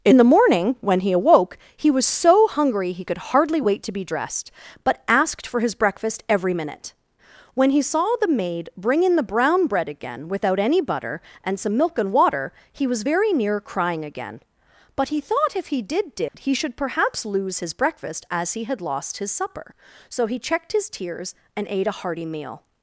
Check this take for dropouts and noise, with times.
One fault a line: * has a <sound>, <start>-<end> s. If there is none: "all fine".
* has a dropout, 16.3-16.3 s